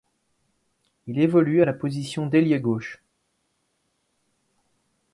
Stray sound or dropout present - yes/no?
no